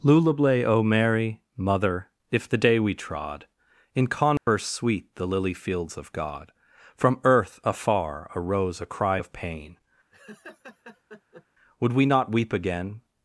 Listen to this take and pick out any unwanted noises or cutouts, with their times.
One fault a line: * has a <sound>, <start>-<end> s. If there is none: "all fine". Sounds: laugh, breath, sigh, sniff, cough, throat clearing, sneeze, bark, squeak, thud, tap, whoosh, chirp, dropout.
* has a dropout, 4.4-4.5 s
* has a laugh, 10.1-11.5 s